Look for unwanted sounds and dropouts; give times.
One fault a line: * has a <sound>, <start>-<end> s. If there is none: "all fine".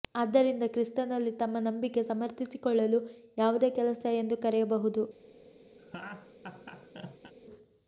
* has a laugh, 5.8-7.3 s